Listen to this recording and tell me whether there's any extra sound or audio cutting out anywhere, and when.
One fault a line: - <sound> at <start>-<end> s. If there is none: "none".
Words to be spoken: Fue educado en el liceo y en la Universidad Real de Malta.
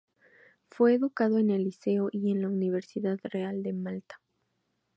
none